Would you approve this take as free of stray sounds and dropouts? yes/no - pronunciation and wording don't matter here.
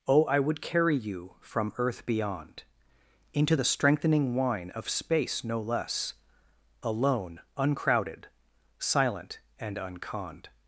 yes